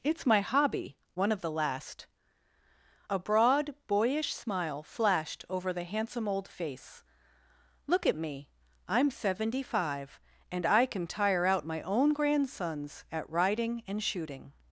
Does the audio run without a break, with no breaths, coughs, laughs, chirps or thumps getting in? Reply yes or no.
yes